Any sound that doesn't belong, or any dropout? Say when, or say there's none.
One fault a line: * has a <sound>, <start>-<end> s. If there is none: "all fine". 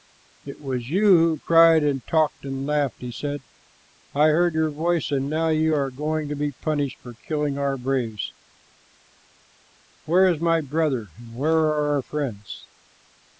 all fine